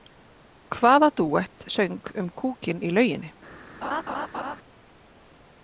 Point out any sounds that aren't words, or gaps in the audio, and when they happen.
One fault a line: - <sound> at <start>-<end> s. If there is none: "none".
- laugh at 3.8-4.6 s